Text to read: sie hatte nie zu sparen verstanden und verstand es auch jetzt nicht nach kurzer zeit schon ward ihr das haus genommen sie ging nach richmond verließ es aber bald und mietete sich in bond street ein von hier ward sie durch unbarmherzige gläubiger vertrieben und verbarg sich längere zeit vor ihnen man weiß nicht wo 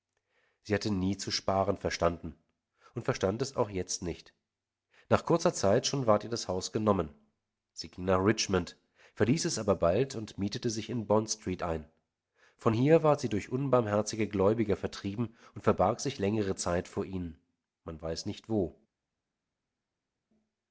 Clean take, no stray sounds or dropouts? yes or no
yes